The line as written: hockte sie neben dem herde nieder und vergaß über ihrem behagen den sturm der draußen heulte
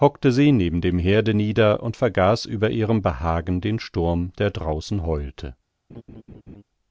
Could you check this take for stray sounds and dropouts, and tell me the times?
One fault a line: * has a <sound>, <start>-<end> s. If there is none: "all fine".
* has a laugh, 5.9-6.6 s